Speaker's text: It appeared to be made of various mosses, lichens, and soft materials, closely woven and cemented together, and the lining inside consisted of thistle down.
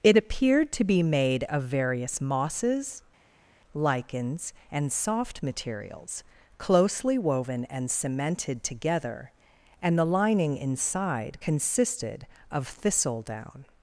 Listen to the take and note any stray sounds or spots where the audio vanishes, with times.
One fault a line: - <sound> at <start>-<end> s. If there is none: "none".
none